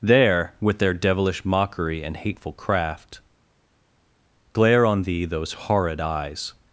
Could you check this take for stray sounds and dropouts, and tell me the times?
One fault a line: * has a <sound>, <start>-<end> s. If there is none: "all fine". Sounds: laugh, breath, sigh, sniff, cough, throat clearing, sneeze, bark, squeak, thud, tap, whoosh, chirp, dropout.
all fine